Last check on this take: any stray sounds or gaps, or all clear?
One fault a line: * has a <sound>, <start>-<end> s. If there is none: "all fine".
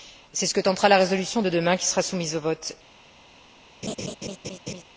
* has a laugh, 3.8-4.8 s